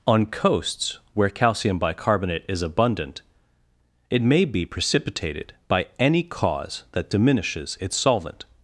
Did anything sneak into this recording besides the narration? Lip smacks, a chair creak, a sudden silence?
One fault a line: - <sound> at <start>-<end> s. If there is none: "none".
none